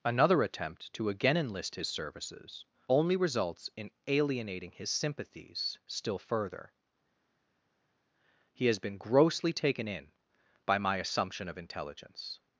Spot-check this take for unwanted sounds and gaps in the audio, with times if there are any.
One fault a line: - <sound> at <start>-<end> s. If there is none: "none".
none